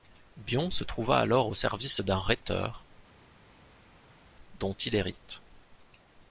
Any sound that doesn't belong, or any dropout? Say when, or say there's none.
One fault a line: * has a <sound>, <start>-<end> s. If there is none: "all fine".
all fine